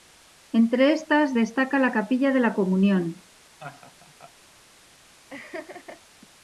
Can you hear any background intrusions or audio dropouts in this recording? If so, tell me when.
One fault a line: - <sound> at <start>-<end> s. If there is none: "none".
- laugh at 3.6-4.3 s
- laugh at 5.3-6.0 s